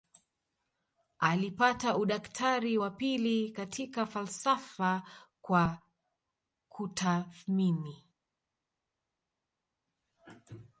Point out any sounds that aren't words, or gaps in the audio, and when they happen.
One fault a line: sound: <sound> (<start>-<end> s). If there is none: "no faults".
no faults